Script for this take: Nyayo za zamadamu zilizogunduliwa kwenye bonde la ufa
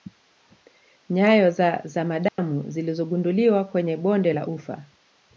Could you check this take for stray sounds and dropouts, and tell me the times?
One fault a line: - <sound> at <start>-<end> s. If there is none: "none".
- dropout at 2.3-2.4 s